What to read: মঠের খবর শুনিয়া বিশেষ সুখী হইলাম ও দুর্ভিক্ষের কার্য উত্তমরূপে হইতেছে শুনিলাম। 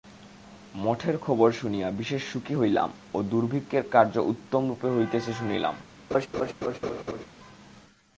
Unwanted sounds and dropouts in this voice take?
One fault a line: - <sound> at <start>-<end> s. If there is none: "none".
- laugh at 6.1-7.3 s